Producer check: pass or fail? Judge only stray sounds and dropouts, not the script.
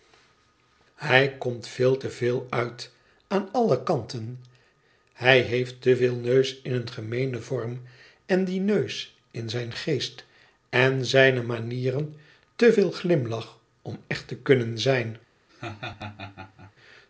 fail